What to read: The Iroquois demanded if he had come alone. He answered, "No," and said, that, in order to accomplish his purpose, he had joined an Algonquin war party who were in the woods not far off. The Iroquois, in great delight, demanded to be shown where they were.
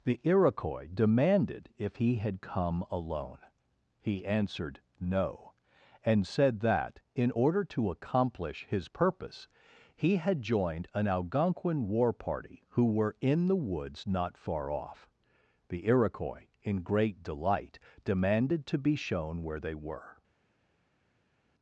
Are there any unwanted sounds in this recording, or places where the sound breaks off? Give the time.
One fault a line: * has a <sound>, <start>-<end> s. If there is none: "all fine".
all fine